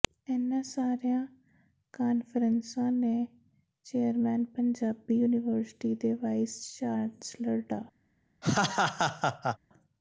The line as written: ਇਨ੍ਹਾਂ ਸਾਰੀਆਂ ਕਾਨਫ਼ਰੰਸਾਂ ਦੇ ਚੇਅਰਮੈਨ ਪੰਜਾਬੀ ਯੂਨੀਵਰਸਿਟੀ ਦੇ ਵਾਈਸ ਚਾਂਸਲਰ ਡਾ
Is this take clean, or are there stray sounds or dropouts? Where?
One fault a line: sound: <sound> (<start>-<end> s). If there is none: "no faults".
sound: laugh (8.4-9.6 s)